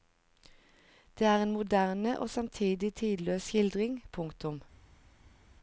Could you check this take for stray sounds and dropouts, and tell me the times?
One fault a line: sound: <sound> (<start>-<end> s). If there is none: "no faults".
no faults